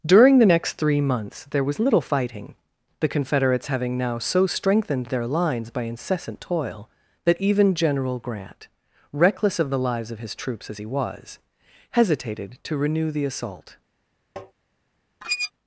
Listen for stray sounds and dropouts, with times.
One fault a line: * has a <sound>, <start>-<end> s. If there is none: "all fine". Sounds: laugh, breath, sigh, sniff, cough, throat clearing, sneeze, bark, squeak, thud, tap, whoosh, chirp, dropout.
* has a tap, 14.4-14.5 s
* has a squeak, 15.2-15.5 s